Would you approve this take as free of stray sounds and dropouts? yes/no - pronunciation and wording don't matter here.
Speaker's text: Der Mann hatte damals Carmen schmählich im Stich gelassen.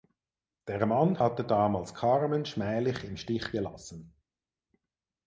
yes